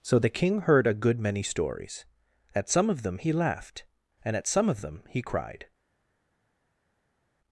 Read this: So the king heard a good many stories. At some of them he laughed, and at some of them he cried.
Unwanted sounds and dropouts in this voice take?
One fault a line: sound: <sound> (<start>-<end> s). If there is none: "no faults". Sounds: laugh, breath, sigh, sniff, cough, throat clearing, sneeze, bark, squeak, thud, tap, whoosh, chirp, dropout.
no faults